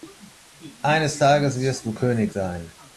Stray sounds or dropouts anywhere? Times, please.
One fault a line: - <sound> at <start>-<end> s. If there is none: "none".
none